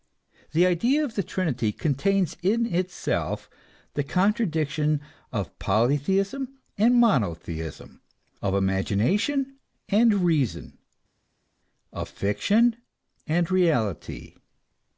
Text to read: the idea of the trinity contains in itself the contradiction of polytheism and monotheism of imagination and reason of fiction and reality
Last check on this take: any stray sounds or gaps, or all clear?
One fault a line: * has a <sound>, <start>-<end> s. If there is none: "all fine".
all fine